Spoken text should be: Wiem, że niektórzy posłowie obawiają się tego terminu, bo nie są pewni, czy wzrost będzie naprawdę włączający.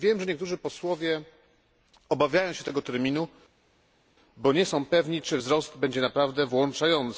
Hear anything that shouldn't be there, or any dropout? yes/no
no